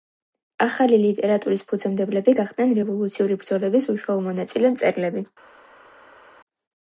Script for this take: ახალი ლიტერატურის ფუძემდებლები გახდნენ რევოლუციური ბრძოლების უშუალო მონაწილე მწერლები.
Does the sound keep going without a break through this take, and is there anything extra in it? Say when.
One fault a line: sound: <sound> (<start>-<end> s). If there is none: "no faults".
no faults